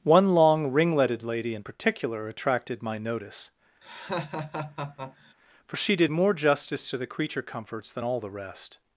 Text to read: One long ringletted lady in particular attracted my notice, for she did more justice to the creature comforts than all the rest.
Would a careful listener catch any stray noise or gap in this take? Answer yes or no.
yes